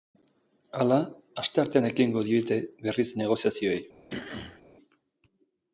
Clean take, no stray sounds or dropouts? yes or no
no